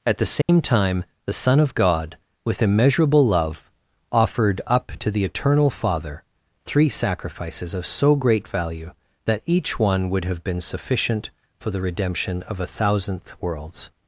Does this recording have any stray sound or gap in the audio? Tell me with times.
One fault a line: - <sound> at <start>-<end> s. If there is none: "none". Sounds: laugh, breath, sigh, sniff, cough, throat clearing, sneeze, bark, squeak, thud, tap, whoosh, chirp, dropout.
- dropout at 0.4-0.5 s